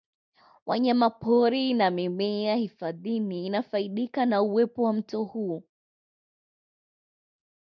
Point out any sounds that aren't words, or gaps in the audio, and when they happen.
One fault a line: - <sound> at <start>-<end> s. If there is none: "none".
none